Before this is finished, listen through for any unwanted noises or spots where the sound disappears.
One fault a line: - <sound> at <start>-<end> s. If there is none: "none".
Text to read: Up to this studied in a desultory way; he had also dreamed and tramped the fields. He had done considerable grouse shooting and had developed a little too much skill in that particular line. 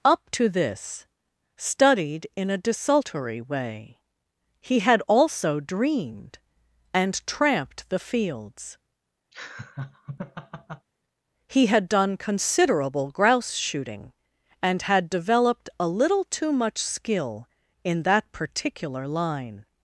- laugh at 9.3-10.9 s